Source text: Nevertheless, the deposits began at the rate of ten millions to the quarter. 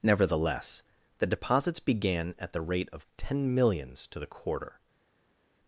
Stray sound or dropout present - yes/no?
no